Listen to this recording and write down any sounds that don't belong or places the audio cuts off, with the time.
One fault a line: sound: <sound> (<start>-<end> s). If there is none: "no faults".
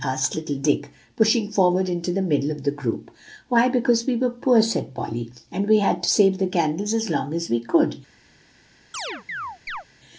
sound: chirp (8.9-9.8 s)